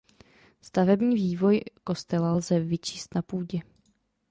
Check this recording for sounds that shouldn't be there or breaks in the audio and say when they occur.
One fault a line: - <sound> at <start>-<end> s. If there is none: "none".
none